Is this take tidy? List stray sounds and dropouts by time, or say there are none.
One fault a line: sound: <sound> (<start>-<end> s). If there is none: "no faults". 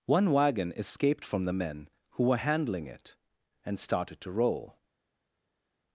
no faults